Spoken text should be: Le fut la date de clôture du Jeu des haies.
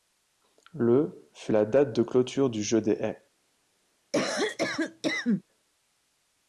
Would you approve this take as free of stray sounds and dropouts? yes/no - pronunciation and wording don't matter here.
no